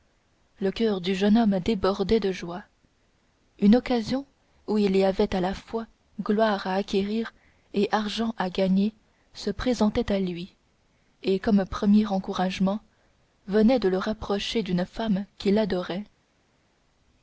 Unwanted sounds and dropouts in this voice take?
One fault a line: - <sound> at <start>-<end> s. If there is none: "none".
none